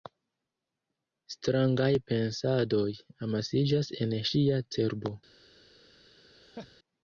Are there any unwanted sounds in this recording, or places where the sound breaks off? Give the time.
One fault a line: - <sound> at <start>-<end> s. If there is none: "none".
- laugh at 6.3-6.8 s